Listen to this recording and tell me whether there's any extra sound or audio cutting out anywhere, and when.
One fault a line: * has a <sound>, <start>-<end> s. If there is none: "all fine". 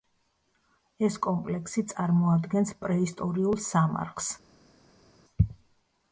all fine